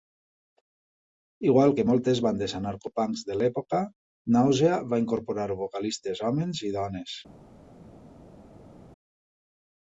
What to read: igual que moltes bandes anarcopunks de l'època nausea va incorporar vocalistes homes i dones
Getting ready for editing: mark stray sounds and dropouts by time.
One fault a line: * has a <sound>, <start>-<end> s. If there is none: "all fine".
all fine